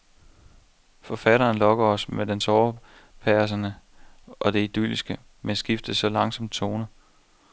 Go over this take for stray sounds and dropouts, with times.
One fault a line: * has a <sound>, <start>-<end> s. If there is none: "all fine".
all fine